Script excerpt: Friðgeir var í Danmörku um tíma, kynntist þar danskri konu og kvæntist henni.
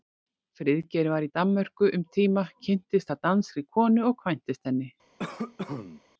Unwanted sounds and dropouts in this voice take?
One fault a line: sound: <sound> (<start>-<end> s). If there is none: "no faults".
sound: cough (5.2-6.0 s)